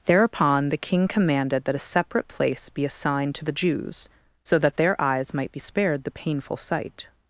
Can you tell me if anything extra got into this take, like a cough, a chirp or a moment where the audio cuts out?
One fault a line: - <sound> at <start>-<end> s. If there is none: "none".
none